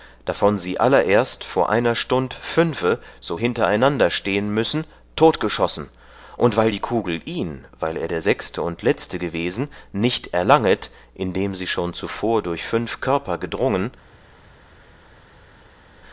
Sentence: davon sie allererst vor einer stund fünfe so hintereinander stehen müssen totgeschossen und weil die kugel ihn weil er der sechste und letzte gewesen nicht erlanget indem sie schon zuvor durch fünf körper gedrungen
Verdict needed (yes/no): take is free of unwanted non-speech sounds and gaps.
yes